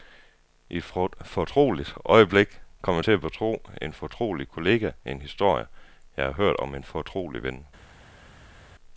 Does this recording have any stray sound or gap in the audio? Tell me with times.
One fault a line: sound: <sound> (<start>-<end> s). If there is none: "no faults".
no faults